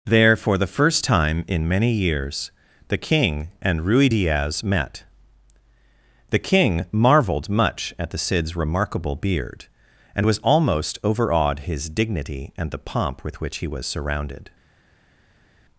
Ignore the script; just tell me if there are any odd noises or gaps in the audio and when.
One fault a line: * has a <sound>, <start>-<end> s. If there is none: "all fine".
all fine